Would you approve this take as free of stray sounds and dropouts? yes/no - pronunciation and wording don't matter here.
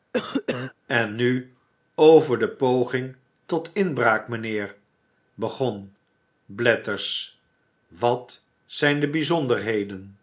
no